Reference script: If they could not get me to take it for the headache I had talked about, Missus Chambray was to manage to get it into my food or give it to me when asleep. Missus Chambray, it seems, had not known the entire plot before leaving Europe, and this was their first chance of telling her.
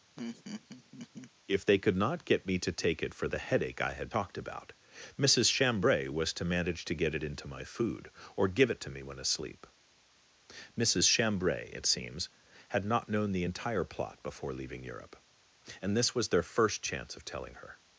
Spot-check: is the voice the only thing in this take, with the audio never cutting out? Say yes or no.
no